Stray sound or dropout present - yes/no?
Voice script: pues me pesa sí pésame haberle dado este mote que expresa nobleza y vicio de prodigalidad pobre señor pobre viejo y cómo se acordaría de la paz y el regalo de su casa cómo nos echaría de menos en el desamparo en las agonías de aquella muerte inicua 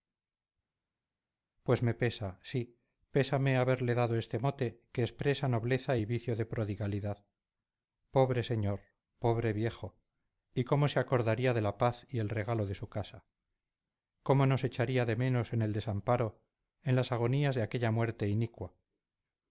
no